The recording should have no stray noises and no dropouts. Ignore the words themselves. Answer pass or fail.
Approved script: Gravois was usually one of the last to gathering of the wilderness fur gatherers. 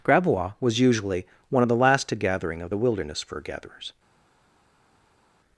pass